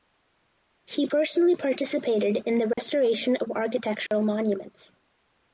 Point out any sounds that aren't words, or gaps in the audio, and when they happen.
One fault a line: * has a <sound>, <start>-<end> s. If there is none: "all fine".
* has a dropout, 2.7-2.8 s
* has a dropout, 4.1-4.1 s